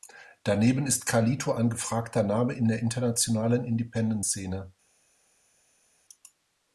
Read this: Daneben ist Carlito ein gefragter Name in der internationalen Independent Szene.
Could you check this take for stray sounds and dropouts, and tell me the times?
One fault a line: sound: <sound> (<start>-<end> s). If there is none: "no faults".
no faults